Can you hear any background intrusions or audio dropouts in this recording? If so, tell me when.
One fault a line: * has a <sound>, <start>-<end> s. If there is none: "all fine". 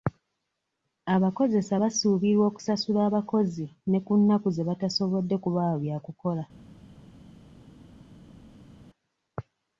all fine